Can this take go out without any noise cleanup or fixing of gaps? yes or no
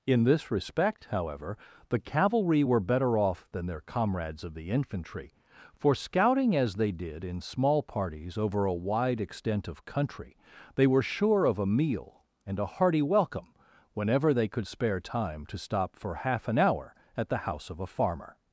yes